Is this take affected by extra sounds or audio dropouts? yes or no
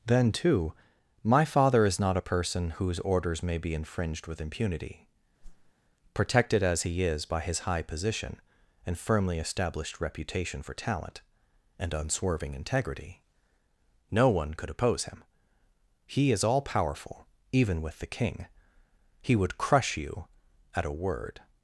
yes